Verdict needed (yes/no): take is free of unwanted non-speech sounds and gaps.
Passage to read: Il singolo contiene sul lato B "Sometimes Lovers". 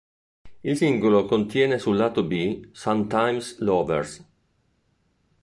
yes